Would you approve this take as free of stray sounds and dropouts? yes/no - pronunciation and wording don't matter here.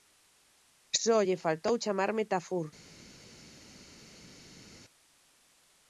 yes